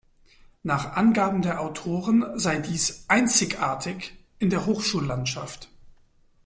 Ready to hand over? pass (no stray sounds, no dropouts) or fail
pass